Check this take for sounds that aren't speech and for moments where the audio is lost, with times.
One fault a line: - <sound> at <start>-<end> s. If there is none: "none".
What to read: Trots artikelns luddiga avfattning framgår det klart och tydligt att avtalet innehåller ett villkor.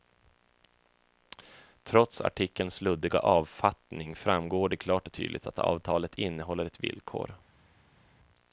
none